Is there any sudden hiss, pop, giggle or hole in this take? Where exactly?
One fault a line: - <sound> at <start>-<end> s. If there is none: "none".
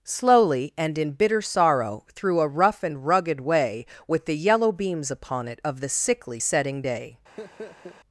- laugh at 7.4-8.0 s